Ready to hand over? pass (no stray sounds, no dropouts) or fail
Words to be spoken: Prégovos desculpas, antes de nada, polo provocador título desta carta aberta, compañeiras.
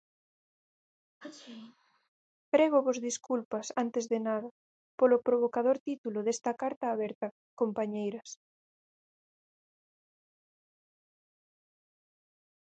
fail